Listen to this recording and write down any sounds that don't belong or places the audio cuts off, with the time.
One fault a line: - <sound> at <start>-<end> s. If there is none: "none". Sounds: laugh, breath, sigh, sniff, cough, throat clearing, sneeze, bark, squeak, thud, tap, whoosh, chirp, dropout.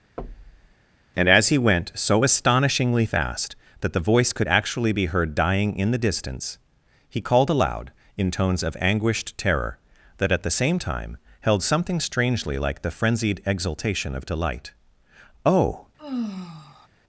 - thud at 0.2-0.8 s
- sigh at 16.0-16.9 s